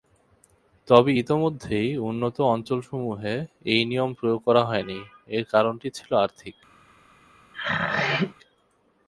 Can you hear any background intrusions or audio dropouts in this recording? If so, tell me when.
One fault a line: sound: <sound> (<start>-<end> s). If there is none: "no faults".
sound: throat clearing (7.5-8.3 s)